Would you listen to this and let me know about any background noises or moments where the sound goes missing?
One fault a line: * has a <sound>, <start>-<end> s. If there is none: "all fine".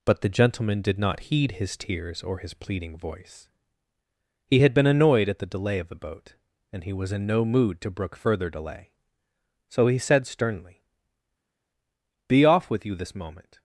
all fine